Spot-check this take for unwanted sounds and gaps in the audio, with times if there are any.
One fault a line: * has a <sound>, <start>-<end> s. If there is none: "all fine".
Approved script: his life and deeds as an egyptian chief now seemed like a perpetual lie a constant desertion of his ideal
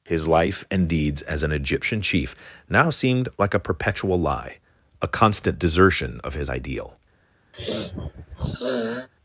* has a sniff, 7.5-9.1 s